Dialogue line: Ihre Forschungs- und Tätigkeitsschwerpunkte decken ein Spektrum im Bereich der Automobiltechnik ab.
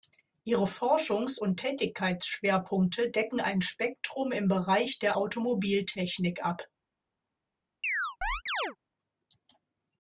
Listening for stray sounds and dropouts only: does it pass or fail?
fail